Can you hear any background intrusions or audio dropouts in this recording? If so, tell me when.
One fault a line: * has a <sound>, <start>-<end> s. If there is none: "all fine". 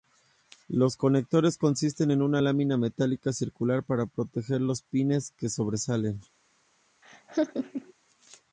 * has a laugh, 7.0-7.9 s